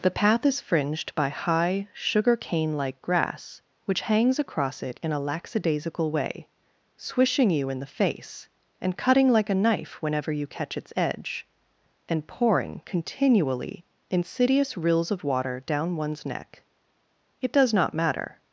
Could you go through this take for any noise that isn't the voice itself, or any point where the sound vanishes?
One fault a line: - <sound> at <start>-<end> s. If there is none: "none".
none